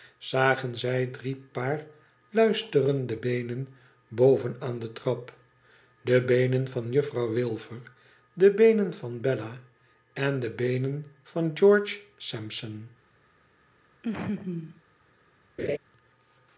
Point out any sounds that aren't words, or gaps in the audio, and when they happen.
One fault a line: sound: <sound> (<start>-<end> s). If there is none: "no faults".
sound: laugh (14.0-14.8 s)
sound: laugh (15.6-15.8 s)